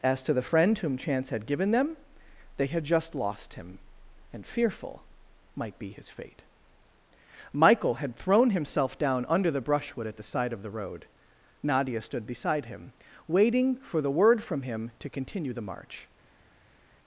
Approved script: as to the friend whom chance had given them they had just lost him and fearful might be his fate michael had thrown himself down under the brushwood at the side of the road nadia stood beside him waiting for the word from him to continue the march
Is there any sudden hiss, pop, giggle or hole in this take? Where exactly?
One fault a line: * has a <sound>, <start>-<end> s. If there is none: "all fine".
all fine